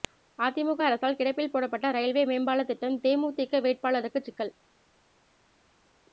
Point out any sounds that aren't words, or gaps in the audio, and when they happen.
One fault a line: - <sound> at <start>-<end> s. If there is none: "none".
none